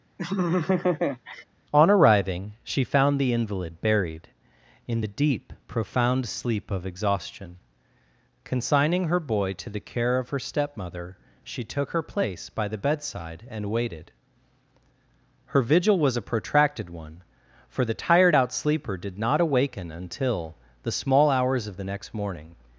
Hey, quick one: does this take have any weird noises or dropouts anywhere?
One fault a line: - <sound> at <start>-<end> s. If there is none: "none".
- laugh at 0.2-1.4 s